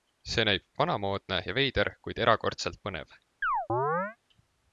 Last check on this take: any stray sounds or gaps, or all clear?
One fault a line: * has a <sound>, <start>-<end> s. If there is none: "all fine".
* has a chirp, 3.4-4.2 s